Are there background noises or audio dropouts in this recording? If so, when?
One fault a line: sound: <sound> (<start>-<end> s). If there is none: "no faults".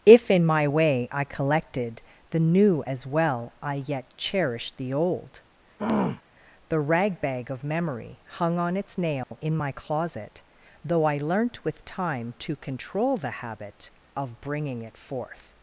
sound: throat clearing (5.8-6.2 s)
sound: dropout (9.2-9.3 s)